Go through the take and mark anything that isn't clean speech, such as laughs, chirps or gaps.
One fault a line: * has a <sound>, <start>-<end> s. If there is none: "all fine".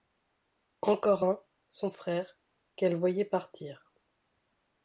all fine